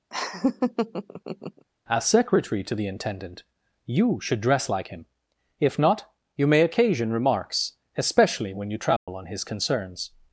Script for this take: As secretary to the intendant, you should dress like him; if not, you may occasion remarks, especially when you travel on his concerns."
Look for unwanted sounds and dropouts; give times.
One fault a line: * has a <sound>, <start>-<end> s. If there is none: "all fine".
* has a laugh, 0.1-1.6 s
* has a dropout, 9.0-9.1 s